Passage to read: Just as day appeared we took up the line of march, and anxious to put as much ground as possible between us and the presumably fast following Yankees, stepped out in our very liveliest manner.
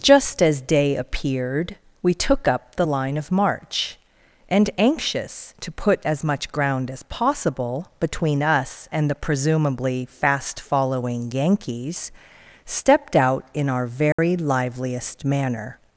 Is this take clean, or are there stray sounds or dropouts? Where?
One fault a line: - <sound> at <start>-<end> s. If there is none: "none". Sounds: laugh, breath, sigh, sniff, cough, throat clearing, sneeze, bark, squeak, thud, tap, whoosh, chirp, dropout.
- dropout at 14.1-14.2 s